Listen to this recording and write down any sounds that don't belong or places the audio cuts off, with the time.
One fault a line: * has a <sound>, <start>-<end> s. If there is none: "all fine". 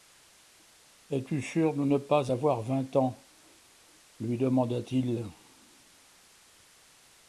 all fine